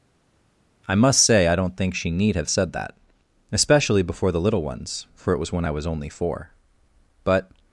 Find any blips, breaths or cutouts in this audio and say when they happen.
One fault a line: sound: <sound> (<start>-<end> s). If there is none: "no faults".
no faults